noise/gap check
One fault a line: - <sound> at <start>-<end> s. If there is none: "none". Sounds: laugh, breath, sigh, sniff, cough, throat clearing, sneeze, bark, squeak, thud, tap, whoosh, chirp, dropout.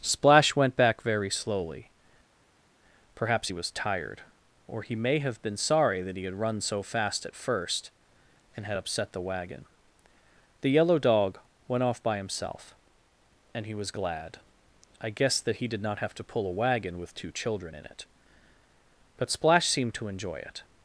none